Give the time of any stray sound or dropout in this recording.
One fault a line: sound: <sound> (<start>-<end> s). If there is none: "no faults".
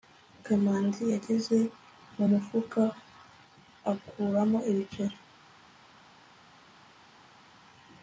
no faults